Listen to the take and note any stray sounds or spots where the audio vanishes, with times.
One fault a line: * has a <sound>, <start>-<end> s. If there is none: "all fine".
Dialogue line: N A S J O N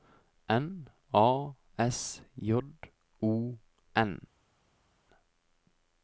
all fine